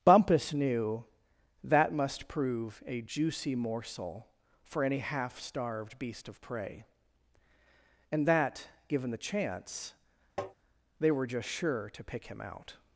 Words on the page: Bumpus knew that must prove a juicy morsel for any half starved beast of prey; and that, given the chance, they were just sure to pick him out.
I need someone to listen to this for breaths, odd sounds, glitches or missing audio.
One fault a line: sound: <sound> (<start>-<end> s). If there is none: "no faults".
sound: tap (10.4-10.5 s)